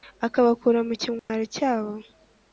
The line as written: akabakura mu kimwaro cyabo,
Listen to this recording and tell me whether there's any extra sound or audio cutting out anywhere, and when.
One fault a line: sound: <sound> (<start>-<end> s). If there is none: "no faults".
sound: dropout (1.2-1.3 s)